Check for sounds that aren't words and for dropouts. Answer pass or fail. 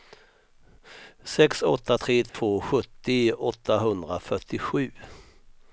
fail